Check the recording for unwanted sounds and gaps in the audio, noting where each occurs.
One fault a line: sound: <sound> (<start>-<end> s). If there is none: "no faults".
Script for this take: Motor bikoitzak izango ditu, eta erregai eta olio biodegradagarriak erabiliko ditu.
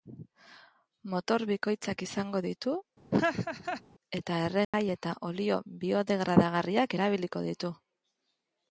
sound: laugh (3.1-3.8 s)
sound: dropout (4.6-4.7 s)